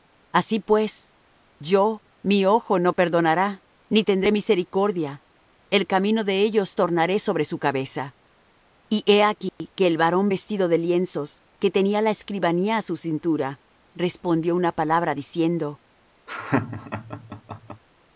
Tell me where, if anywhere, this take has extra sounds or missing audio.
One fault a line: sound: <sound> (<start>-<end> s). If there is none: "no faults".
sound: dropout (9.5-9.6 s)
sound: laugh (16.3-17.8 s)